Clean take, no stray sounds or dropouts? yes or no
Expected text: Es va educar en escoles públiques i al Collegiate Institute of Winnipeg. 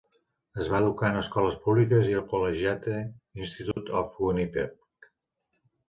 no